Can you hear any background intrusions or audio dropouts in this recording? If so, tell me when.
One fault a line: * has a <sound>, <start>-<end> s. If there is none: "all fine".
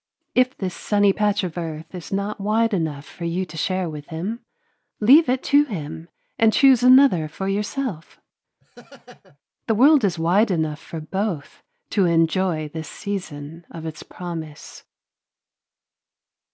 * has a laugh, 8.6-9.4 s